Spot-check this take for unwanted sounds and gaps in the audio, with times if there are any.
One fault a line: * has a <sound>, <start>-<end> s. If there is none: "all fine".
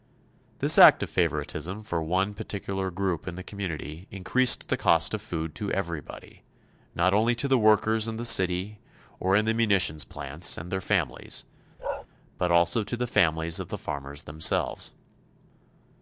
* has a bark, 11.8-12.1 s